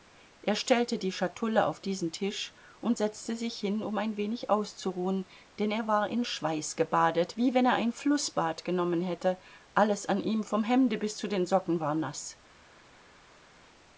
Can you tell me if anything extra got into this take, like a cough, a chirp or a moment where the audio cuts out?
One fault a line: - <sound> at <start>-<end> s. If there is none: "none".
none